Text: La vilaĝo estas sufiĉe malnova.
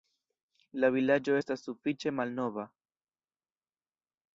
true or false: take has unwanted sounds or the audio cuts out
false